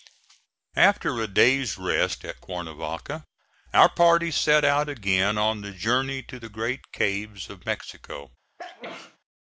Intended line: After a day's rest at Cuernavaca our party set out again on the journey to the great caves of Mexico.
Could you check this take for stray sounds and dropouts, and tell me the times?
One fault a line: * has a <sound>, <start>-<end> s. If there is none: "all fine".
* has a sneeze, 8.6-9.2 s